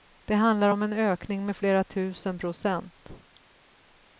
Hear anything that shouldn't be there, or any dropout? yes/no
no